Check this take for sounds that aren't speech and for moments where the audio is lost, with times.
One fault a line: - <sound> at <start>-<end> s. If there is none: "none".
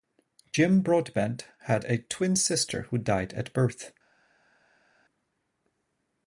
none